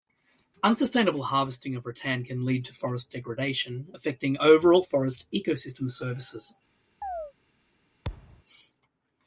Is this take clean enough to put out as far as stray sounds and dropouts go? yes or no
no